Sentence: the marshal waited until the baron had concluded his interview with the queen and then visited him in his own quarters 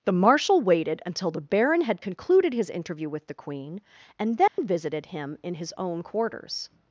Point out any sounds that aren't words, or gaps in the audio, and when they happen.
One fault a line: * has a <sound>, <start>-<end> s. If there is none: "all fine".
* has a dropout, 4.5-4.6 s